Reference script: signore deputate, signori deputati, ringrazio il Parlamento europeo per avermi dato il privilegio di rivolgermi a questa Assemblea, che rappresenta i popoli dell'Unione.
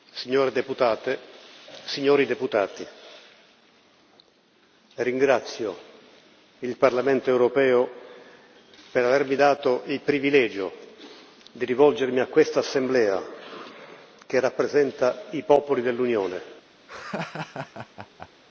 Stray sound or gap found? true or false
true